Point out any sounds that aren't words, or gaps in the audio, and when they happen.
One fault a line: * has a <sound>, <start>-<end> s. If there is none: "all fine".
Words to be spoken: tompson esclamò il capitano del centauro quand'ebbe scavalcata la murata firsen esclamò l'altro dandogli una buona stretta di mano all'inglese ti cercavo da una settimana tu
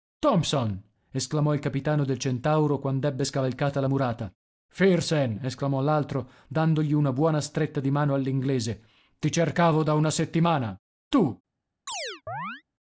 * has a chirp, 11.9-12.6 s